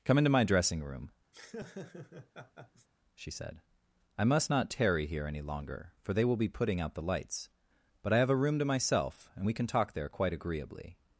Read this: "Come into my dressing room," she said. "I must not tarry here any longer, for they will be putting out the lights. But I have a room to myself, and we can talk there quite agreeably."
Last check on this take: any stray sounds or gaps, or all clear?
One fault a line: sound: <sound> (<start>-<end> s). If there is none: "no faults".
sound: laugh (1.3-2.9 s)